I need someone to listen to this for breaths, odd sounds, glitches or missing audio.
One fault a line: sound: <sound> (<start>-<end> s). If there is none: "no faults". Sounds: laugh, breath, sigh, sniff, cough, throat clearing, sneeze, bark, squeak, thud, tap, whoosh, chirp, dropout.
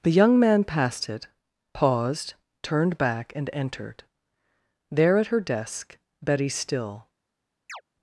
sound: chirp (7.7-7.8 s)